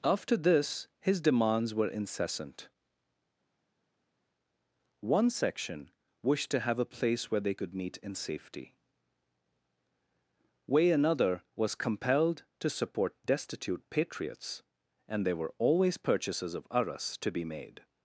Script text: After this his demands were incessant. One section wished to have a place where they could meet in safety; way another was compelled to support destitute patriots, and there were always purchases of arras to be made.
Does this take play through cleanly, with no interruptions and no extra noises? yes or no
yes